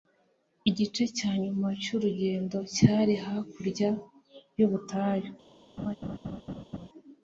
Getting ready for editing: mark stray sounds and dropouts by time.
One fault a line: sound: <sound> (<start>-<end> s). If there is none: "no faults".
sound: laugh (5.8-6.9 s)